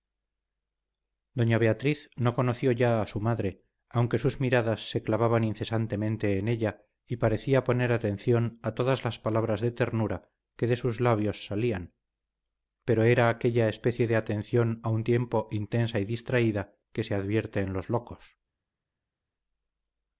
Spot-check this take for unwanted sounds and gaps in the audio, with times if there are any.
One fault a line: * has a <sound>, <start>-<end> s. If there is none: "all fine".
all fine